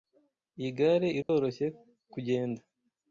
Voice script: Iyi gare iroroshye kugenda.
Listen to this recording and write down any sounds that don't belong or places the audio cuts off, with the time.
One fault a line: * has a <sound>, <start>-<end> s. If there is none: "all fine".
* has a dropout, 1.2-1.3 s